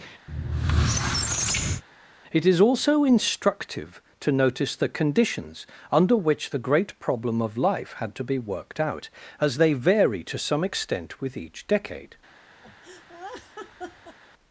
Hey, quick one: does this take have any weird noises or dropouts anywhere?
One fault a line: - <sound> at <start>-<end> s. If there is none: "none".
- squeak at 0.3-1.8 s
- laugh at 12.6-14.2 s